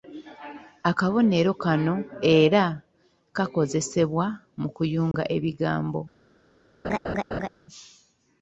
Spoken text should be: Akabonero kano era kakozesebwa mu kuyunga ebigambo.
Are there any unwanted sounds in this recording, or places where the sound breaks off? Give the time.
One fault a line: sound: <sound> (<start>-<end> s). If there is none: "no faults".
sound: dropout (5.1-5.1 s)
sound: laugh (6.8-7.5 s)